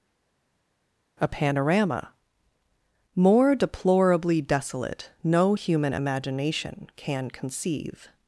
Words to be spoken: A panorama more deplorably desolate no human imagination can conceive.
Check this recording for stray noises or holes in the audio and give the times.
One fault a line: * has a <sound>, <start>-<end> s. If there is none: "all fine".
all fine